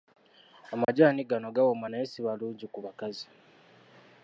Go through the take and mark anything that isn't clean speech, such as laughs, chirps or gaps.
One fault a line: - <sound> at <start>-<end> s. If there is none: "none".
- dropout at 0.8-0.9 s